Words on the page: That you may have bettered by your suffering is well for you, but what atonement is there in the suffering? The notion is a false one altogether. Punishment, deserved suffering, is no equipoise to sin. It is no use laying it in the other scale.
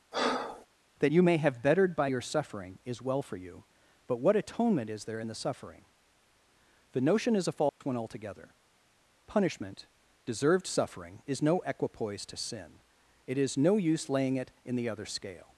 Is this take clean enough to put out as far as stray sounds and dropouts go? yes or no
no